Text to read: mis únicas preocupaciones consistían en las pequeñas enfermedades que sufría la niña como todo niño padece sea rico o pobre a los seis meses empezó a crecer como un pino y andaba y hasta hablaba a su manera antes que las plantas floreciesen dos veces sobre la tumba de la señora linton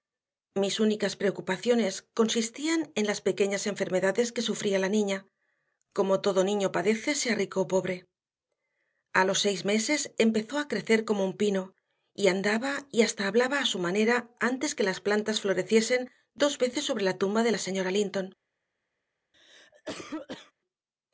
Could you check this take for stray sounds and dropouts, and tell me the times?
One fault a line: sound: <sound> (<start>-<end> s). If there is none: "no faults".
sound: cough (19.3-20.5 s)